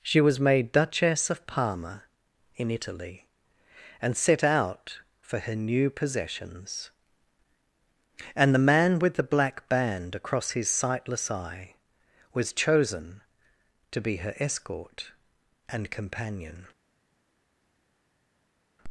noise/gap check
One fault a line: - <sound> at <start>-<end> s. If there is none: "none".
none